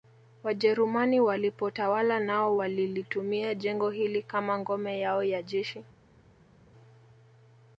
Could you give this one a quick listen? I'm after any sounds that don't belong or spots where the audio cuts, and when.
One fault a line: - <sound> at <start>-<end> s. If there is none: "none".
none